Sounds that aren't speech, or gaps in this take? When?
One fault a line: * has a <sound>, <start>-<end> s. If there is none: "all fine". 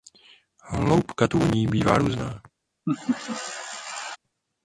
* has a laugh, 2.9-4.2 s